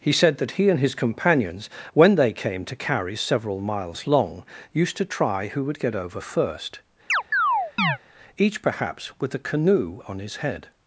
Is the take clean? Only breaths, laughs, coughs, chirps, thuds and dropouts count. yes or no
no